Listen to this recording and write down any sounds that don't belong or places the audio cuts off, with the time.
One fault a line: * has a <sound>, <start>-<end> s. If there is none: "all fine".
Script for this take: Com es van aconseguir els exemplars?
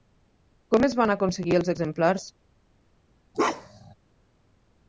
* has a bark, 3.3-3.9 s